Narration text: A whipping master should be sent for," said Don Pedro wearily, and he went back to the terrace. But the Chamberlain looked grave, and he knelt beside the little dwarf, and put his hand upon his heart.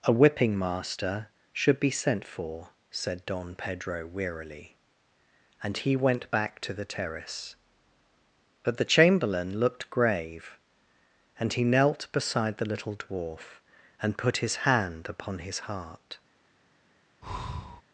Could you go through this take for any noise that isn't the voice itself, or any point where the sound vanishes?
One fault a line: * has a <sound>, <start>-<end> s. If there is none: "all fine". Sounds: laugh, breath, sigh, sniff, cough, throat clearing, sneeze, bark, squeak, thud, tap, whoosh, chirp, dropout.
* has a breath, 17.2-17.8 s